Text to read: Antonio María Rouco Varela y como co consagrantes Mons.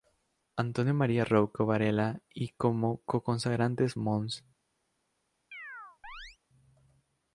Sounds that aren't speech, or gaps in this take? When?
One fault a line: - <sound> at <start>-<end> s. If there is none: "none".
- chirp at 5.5-6.4 s